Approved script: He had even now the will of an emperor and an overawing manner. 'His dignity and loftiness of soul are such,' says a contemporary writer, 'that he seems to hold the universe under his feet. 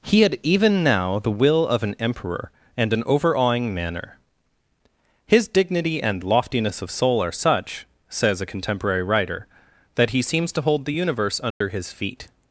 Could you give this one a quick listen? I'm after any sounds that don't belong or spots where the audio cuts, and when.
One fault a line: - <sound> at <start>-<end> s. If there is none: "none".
- dropout at 11.5-11.6 s